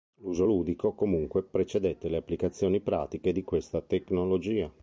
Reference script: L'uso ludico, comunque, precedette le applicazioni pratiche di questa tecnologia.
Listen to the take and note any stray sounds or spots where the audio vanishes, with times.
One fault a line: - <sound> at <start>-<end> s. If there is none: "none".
none